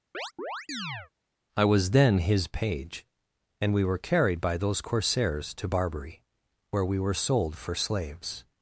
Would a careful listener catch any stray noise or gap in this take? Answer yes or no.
yes